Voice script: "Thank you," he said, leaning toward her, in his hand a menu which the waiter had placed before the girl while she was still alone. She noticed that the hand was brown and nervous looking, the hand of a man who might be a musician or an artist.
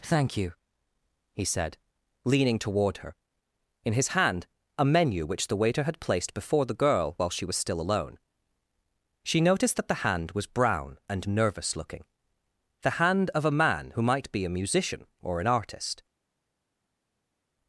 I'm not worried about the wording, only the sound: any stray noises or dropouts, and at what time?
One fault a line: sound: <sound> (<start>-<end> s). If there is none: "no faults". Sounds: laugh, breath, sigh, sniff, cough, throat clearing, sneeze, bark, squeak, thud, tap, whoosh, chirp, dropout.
no faults